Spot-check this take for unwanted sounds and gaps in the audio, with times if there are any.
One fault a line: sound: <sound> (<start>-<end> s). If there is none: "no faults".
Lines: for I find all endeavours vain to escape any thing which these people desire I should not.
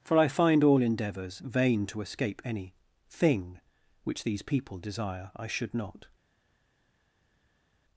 no faults